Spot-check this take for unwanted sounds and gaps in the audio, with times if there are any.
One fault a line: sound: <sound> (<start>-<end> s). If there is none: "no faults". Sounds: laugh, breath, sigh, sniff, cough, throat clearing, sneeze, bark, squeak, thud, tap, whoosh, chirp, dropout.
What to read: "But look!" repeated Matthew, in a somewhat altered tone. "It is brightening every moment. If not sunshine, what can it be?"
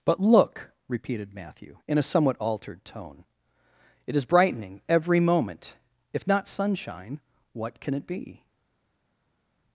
no faults